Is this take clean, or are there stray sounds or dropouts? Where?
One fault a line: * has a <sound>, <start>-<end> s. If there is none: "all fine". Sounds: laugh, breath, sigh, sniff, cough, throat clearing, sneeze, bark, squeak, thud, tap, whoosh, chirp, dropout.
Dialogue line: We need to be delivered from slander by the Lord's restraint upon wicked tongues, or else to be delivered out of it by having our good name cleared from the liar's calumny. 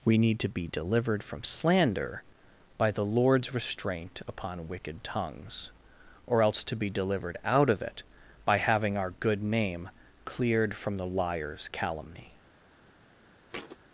* has a thud, 13.5-13.8 s